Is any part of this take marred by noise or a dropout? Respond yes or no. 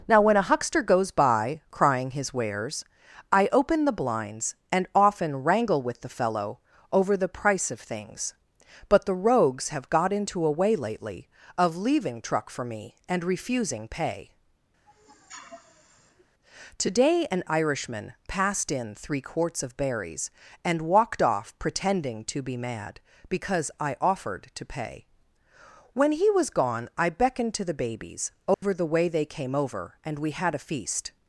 yes